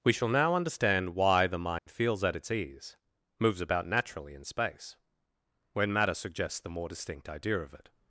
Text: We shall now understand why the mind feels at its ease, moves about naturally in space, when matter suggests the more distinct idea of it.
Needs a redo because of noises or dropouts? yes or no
yes